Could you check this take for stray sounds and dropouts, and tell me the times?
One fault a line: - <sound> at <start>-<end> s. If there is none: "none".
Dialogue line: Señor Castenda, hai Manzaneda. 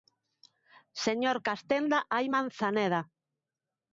none